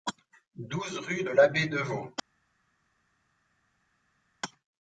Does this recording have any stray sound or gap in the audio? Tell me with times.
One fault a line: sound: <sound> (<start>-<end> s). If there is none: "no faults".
no faults